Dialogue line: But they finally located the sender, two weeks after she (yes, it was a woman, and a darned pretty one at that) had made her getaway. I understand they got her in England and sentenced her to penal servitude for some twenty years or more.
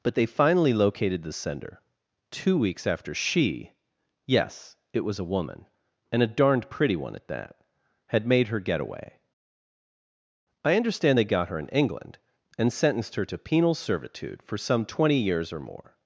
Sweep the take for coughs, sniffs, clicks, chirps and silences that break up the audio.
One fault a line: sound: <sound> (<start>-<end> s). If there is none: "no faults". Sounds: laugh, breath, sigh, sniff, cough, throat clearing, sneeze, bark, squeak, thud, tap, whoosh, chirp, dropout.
no faults